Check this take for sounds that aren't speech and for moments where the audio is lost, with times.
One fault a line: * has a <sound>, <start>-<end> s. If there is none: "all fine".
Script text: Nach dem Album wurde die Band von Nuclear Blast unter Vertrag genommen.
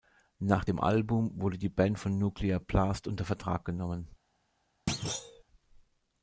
* has a thud, 4.9-5.4 s